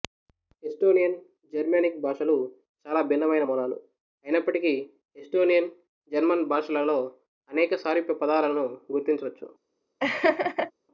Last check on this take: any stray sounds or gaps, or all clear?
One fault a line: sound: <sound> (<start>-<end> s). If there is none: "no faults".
sound: laugh (10.0-10.7 s)